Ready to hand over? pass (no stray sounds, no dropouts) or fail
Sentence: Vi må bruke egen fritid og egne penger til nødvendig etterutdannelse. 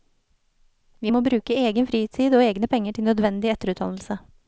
pass